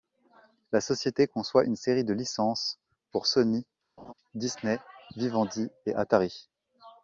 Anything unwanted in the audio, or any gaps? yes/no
yes